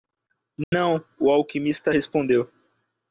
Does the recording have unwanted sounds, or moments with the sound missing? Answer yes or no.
yes